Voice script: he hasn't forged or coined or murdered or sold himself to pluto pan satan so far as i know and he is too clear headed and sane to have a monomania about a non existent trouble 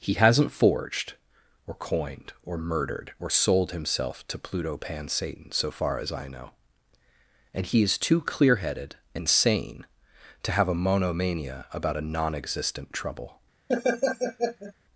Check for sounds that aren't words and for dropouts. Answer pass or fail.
fail